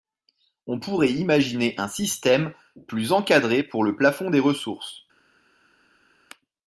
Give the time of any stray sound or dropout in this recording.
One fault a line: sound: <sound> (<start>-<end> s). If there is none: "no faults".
no faults